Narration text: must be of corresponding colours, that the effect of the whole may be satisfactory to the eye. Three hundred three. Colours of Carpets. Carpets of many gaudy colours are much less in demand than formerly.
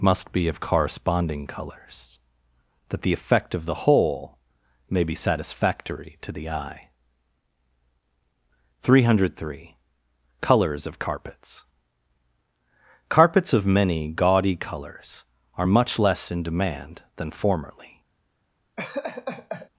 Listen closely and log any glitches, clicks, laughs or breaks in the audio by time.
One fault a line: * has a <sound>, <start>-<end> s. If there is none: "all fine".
* has a laugh, 18.8-19.7 s